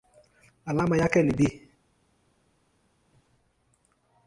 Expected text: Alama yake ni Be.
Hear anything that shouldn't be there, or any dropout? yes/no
no